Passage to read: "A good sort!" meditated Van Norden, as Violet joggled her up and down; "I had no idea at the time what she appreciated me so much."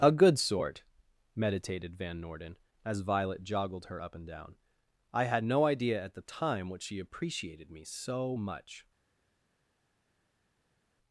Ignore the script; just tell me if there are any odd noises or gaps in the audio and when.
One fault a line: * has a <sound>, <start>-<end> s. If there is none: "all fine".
all fine